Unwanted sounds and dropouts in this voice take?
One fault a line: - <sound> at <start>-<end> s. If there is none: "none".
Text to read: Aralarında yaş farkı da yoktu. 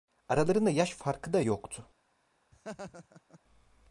- laugh at 2.5-3.4 s